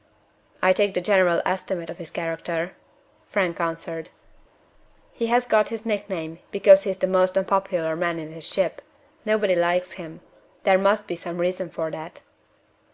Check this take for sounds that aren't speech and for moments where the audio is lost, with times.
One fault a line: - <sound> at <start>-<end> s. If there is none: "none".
none